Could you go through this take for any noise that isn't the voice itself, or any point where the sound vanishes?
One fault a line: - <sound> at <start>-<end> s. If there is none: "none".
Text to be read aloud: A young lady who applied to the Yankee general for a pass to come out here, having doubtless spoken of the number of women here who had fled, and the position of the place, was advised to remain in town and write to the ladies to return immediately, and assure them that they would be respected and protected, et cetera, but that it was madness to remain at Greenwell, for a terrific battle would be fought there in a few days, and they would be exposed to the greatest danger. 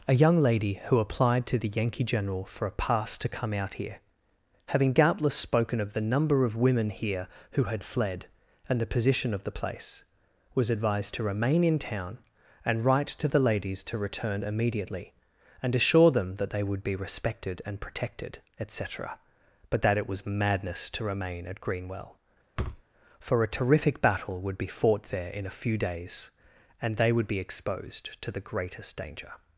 - thud at 22.6-22.8 s